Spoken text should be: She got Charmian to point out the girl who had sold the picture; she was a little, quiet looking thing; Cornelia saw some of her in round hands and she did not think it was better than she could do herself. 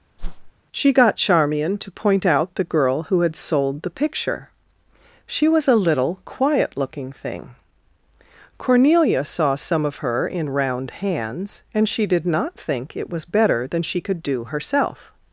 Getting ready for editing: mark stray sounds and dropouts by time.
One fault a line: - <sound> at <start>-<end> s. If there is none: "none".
- whoosh at 0.2-0.5 s